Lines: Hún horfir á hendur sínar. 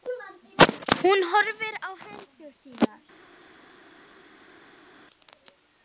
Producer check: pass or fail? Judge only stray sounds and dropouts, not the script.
pass